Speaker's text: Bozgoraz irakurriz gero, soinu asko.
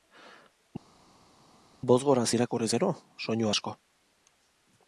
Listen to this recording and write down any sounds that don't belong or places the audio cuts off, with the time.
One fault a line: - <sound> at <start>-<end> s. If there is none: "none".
none